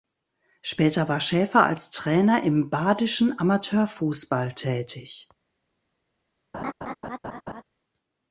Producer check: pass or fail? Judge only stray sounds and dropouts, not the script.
fail